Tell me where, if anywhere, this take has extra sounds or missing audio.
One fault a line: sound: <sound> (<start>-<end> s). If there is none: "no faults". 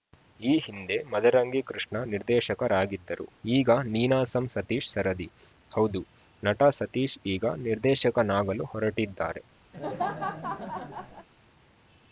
sound: laugh (9.7-11.3 s)